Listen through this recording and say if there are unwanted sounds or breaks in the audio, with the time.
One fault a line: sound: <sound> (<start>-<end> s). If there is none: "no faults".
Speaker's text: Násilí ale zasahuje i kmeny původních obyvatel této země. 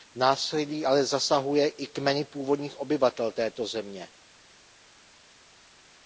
no faults